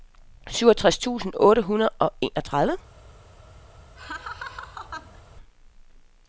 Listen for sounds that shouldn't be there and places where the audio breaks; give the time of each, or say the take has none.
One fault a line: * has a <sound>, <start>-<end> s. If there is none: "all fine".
* has a laugh, 4.0-5.2 s